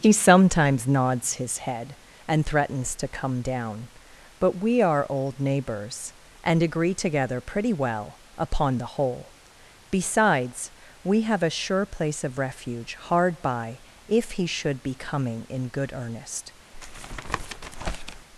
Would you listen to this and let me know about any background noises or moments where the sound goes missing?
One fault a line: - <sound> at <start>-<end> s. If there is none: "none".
- tap at 16.7-18.3 s